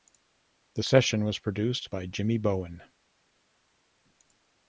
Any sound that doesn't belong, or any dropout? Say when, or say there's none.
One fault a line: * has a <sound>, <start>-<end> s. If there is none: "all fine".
all fine